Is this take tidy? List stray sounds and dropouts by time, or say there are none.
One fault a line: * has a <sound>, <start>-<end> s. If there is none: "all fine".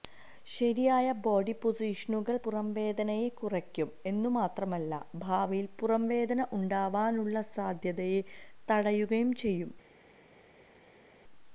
all fine